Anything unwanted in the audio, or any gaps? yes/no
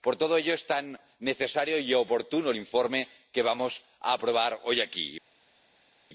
no